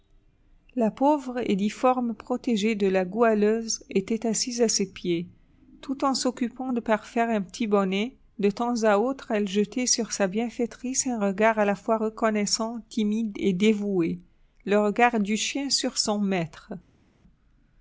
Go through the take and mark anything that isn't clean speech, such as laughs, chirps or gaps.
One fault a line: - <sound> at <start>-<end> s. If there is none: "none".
none